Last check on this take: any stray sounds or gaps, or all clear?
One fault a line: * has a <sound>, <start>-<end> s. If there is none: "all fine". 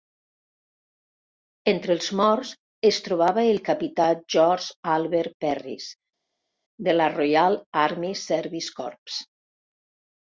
all fine